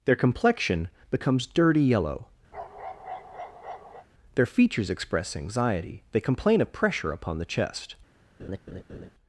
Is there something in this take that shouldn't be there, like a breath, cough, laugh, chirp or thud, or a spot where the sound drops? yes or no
yes